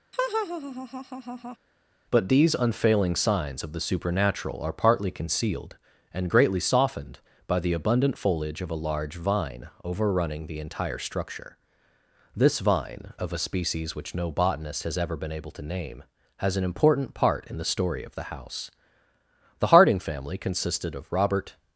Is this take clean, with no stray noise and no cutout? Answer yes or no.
no